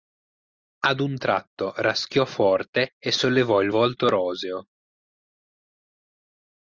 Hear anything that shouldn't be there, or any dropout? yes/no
no